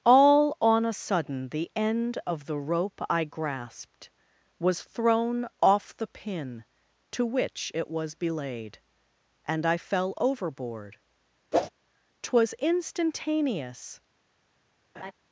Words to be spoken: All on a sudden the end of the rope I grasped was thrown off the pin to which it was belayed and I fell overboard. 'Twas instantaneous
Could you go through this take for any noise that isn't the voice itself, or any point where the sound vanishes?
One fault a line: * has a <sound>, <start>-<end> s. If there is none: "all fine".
* has a whoosh, 11.5-11.7 s
* has a laugh, 14.9-15.1 s